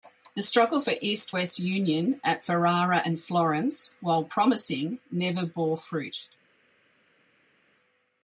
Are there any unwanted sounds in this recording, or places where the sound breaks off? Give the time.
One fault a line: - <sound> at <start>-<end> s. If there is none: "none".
none